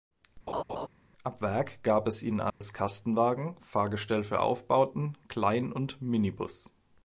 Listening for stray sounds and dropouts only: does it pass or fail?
fail